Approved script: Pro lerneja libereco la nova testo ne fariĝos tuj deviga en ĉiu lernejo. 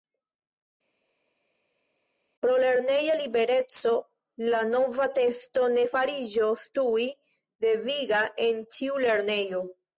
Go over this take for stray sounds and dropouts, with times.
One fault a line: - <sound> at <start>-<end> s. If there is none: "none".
none